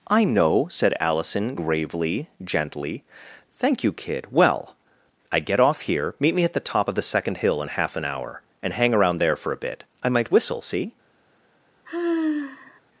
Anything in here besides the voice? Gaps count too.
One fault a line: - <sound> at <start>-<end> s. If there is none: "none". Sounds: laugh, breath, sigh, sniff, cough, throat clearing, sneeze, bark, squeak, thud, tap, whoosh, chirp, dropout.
- sigh at 11.9-12.8 s